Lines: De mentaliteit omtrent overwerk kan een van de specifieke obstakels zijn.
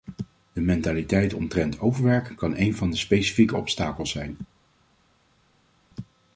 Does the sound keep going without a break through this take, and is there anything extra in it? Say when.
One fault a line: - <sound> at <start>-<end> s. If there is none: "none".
none